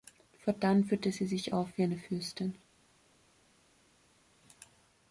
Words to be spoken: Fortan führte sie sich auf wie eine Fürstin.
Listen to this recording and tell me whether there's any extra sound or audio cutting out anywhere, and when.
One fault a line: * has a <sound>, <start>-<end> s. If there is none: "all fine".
all fine